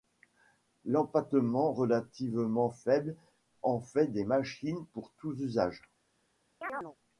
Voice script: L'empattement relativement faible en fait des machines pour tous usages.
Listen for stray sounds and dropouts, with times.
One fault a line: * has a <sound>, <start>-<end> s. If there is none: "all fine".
* has a chirp, 6.6-7.0 s